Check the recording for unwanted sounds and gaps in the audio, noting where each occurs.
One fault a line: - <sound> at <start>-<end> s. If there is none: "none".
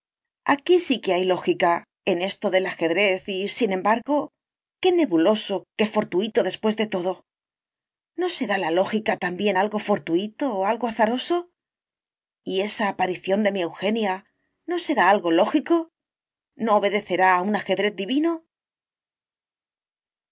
none